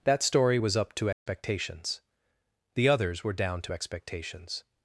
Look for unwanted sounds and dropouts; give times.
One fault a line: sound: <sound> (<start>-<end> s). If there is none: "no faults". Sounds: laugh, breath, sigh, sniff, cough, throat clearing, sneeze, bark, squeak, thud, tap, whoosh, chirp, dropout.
sound: dropout (1.1-1.3 s)